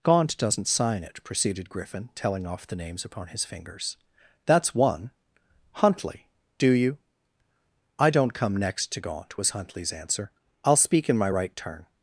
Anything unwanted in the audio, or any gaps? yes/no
no